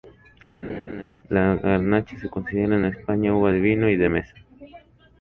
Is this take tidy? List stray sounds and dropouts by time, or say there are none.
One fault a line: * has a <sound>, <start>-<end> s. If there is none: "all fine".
* has a laugh, 0.6-1.0 s